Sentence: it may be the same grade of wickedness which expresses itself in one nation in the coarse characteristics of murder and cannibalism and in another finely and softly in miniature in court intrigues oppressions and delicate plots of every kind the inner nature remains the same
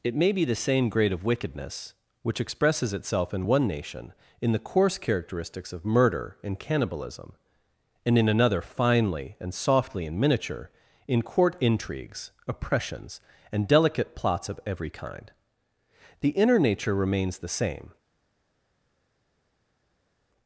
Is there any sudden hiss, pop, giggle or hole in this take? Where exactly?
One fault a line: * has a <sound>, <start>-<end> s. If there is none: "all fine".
all fine